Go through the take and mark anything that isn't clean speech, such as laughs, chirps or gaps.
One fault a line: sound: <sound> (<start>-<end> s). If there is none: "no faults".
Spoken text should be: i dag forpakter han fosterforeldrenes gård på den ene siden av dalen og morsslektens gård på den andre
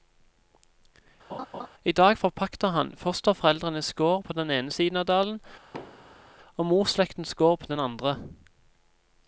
sound: laugh (1.3-1.7 s)
sound: thud (5.7-6.3 s)